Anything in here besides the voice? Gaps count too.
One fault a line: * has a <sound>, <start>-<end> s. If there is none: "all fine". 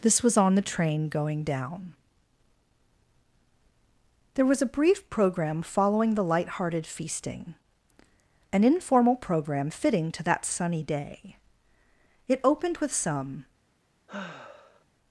* has a sigh, 14.1-14.8 s